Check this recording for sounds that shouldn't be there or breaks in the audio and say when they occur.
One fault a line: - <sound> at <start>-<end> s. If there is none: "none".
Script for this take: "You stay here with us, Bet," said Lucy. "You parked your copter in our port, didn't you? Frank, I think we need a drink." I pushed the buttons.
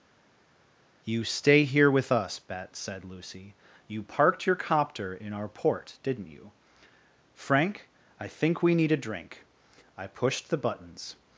none